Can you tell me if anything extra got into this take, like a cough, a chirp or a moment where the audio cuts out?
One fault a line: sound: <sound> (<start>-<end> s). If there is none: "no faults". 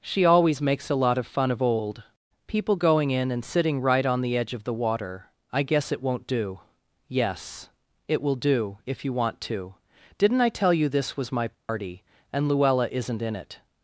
sound: dropout (11.5-11.7 s)